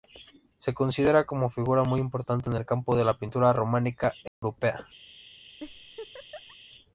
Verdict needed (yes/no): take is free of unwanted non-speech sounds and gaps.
no